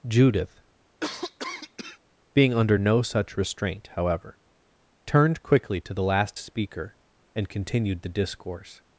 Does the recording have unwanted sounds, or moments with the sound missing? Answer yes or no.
yes